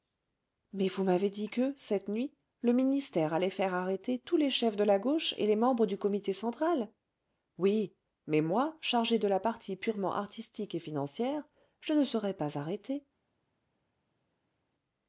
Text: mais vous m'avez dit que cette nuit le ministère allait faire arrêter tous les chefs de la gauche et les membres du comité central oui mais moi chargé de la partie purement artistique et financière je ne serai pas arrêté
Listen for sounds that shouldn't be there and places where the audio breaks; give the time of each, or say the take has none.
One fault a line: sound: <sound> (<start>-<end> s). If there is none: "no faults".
no faults